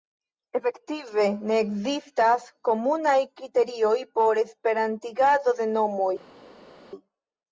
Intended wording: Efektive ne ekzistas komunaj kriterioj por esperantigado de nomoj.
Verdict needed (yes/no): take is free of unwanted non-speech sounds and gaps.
yes